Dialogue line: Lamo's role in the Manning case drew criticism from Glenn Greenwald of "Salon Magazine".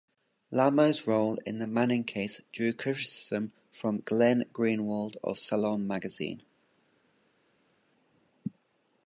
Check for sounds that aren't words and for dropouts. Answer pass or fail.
pass